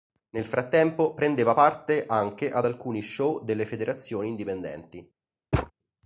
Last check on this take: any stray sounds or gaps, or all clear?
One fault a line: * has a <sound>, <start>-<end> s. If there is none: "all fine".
* has a thud, 5.5-5.7 s